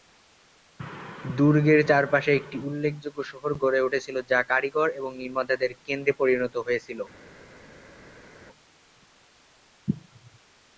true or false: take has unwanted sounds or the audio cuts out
false